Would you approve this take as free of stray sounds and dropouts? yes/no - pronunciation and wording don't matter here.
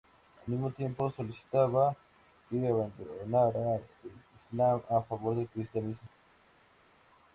yes